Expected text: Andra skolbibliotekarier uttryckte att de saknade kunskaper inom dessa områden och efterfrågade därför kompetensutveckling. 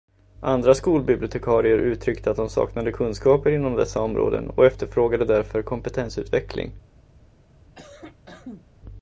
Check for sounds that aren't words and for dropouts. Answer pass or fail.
fail